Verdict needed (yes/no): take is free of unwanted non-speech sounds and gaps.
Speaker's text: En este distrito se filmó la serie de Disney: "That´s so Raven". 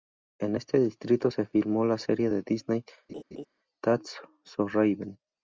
no